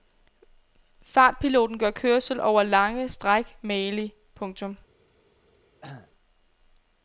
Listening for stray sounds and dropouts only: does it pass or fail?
fail